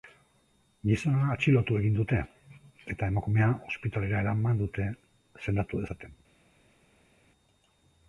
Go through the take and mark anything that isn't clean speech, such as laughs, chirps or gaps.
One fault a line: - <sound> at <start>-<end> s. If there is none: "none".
none